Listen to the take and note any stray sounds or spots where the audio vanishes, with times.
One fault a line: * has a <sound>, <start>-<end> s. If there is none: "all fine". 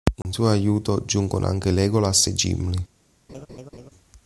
* has a dropout, 0.2-0.3 s
* has a laugh, 3.3-3.9 s